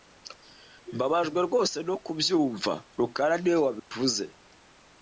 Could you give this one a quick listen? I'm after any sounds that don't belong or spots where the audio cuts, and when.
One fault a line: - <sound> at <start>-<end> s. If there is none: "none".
- dropout at 3.8-3.9 s